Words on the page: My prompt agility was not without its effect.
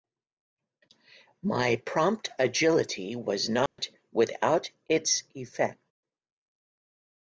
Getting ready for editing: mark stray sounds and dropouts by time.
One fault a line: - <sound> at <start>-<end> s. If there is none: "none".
- dropout at 3.7-3.8 s